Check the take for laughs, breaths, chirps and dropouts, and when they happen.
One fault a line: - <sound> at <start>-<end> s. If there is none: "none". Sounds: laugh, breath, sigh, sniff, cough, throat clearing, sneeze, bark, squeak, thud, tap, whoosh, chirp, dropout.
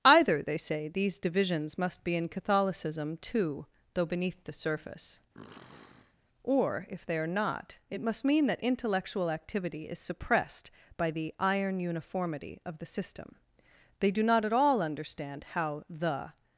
- sniff at 5.3-6.2 s